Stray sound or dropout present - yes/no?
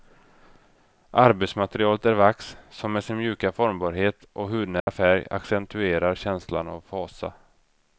yes